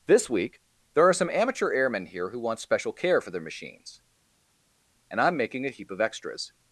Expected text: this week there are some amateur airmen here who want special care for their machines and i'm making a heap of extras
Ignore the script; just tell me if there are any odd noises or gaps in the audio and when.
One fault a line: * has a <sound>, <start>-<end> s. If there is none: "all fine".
all fine